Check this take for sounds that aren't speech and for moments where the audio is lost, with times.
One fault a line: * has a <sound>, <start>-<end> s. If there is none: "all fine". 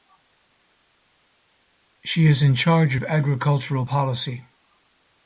all fine